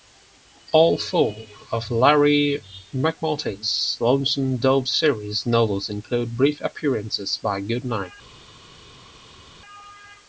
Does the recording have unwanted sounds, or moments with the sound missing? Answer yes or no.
no